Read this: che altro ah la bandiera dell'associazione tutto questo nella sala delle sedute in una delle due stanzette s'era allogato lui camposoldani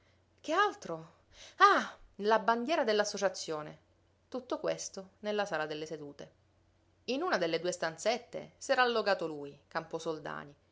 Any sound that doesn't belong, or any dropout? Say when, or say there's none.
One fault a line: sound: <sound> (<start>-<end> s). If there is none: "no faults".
no faults